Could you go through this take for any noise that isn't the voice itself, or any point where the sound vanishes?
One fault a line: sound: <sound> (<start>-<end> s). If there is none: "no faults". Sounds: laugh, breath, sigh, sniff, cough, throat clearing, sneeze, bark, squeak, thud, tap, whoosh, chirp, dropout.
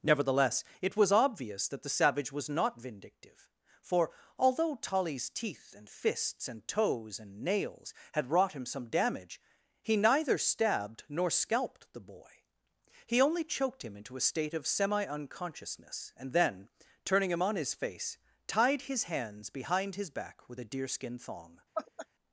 sound: laugh (21.7-22.1 s)